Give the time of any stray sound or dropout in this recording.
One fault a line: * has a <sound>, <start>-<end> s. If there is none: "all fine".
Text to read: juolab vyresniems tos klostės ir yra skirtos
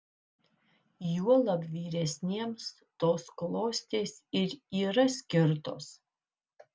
all fine